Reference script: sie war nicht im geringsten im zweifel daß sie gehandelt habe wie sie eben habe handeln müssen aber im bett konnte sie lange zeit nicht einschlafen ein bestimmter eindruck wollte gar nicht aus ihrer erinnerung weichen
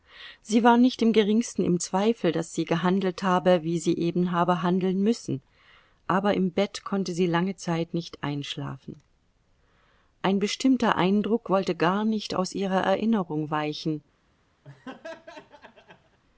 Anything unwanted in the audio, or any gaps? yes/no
yes